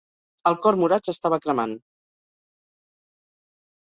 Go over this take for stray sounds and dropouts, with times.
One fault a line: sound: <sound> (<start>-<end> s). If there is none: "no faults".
no faults